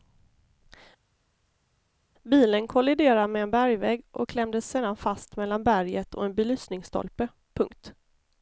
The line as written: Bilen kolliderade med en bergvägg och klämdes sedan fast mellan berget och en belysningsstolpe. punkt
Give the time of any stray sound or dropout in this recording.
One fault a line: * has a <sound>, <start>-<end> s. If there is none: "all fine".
all fine